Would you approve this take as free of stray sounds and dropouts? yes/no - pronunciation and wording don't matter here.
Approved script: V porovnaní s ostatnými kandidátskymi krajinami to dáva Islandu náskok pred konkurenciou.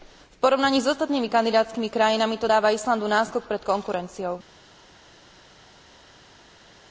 yes